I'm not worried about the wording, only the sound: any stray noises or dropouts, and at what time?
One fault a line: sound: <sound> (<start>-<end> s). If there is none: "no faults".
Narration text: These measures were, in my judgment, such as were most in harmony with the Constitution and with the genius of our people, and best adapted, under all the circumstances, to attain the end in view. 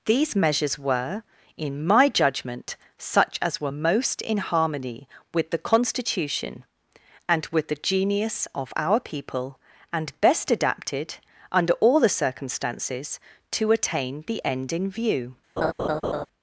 sound: laugh (15.6-16.3 s)